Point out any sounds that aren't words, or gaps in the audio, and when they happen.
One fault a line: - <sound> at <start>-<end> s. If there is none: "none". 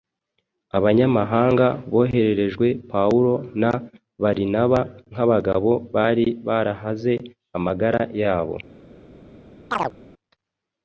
- chirp at 9.7-9.9 s